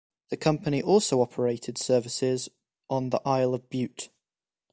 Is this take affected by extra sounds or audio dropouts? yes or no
no